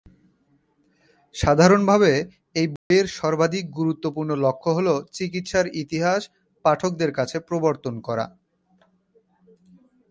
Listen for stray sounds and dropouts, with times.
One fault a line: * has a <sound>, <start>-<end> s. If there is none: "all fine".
* has a dropout, 2.8-2.9 s